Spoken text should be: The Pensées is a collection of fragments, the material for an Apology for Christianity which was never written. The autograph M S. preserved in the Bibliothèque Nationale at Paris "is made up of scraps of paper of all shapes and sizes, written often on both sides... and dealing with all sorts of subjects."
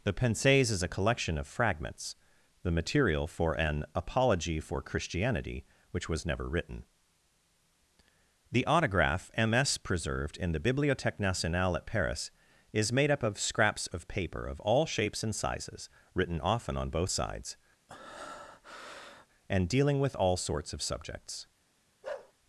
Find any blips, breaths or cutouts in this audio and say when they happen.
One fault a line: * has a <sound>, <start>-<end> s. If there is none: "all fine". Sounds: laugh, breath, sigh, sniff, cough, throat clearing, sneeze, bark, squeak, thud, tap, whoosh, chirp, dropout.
* has a breath, 17.9-19.3 s
* has a bark, 22.0-22.3 s